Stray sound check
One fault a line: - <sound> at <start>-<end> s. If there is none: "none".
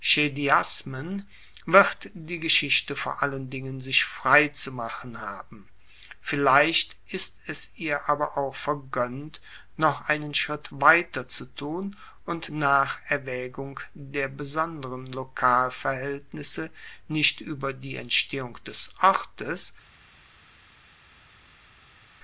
none